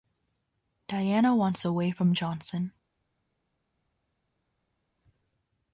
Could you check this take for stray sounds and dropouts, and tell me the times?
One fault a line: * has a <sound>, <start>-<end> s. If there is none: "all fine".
all fine